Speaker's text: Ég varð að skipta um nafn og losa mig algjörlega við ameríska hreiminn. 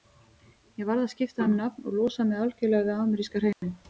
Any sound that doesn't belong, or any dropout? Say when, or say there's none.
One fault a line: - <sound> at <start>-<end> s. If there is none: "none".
- dropout at 3.5-3.6 s